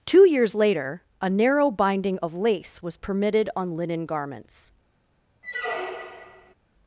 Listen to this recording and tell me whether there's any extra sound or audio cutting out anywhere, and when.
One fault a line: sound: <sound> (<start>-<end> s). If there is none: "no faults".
sound: squeak (5.4-6.5 s)